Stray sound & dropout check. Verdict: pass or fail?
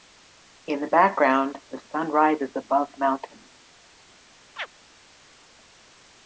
fail